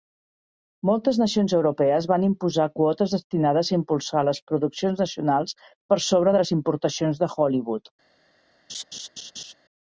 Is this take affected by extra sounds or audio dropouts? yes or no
yes